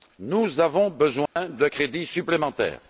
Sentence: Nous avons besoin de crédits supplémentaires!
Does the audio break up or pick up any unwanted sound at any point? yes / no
yes